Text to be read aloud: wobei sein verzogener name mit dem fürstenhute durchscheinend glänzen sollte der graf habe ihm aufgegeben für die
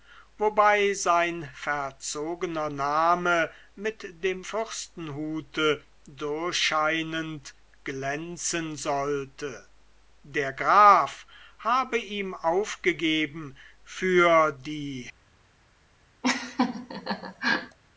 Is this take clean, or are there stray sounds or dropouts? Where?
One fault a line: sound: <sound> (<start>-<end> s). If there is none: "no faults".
sound: laugh (16.2-17.8 s)